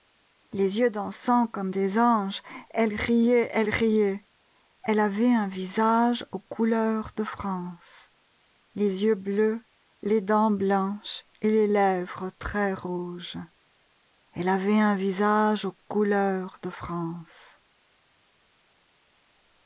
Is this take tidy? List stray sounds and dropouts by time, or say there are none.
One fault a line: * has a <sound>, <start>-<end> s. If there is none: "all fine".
all fine